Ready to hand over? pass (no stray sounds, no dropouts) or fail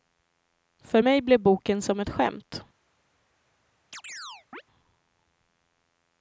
fail